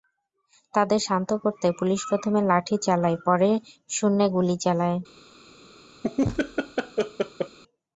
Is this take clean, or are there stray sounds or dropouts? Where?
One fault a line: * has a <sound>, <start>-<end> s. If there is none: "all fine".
* has a laugh, 6.0-7.6 s